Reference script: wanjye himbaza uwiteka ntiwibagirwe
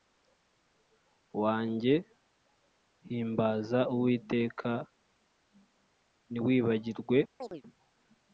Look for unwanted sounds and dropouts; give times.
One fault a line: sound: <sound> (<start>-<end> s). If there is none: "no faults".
sound: chirp (7.4-7.6 s)